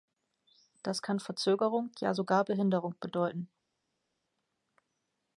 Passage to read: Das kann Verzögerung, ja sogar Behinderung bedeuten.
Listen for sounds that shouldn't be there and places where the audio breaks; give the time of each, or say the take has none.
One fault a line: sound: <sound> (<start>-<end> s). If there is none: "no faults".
no faults